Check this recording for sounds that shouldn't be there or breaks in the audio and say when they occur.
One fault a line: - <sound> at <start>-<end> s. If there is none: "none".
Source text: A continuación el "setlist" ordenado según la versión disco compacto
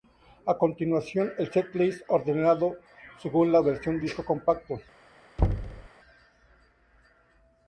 - thud at 5.4-5.9 s